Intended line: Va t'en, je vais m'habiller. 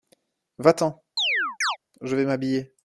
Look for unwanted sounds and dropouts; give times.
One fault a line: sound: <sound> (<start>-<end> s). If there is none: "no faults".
sound: chirp (1.2-1.8 s)